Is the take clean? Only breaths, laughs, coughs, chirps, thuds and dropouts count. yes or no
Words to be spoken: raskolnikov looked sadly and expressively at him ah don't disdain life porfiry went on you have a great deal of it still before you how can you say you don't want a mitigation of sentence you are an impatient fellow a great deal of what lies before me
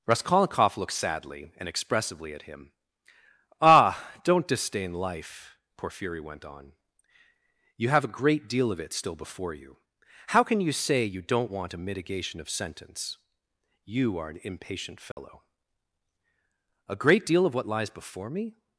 no